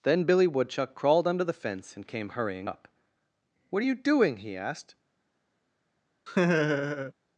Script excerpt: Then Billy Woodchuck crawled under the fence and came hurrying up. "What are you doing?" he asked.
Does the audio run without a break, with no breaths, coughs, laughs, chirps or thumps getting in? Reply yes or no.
no